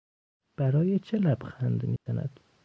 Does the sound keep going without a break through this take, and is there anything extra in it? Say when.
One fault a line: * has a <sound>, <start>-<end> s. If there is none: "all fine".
* has a dropout, 2.0-2.1 s